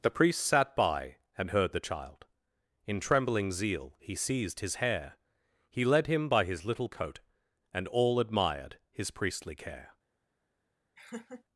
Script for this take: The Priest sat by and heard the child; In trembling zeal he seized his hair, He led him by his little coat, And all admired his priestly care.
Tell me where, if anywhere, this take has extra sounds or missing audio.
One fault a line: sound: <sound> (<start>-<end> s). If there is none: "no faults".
sound: laugh (11.0-11.4 s)